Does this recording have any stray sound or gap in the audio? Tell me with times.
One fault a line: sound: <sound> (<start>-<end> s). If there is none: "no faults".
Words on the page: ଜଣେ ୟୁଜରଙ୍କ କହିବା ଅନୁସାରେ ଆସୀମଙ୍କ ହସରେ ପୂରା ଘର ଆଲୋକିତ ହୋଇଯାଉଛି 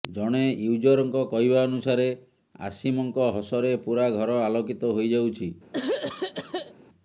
sound: throat clearing (5.7-6.7 s)